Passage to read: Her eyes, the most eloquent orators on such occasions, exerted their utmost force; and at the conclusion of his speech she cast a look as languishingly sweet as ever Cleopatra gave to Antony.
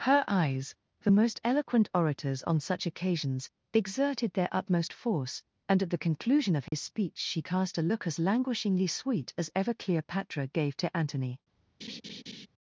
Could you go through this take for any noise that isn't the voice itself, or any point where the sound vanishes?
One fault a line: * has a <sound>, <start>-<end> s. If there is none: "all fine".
* has a dropout, 6.7-6.7 s
* has a laugh, 11.8-12.5 s